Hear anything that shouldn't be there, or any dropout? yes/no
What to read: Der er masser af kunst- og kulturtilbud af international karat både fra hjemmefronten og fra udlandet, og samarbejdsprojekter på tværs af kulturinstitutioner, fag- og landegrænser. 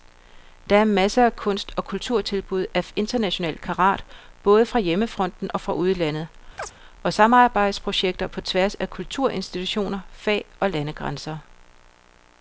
yes